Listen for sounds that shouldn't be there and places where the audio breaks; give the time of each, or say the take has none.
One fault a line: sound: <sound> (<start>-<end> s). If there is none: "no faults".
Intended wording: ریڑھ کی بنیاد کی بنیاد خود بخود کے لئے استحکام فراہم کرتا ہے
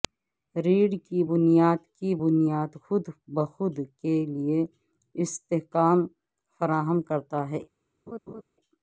sound: laugh (8.1-8.4 s)